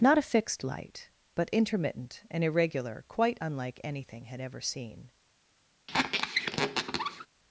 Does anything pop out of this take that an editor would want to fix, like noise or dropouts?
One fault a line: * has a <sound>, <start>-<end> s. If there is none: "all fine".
* has a squeak, 5.9-7.3 s